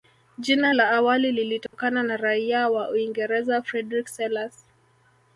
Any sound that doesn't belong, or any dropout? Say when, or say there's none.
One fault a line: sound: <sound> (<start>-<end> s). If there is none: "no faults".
sound: dropout (1.7-1.7 s)